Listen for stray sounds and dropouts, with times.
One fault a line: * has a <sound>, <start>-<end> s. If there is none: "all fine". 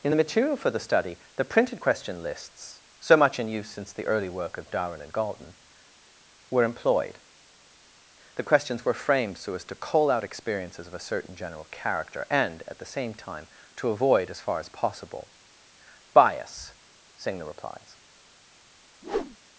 * has a whoosh, 19.0-19.4 s